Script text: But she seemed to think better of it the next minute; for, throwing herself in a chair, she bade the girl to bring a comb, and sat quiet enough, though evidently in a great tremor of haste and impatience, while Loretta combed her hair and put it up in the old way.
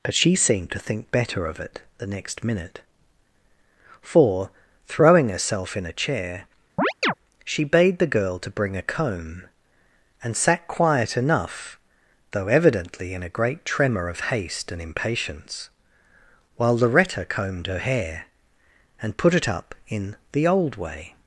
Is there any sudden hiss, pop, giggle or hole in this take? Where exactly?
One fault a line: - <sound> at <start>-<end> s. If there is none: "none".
- chirp at 6.8-7.1 s